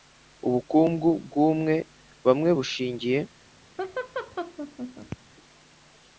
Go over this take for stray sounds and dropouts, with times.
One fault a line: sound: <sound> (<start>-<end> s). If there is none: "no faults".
sound: laugh (3.8-5.2 s)